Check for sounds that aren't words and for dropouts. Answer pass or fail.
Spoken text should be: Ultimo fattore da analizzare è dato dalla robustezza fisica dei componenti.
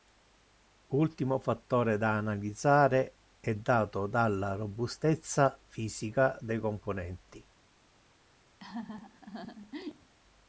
fail